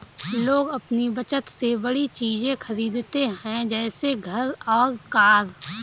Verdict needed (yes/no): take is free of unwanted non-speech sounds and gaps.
yes